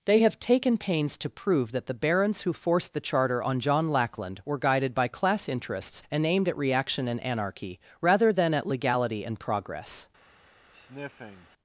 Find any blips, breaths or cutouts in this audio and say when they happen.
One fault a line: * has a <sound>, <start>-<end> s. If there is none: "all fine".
* has a sniff, 10.7-11.5 s